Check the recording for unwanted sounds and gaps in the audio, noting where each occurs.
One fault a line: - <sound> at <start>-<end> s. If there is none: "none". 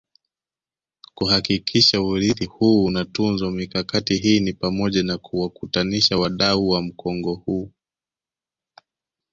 none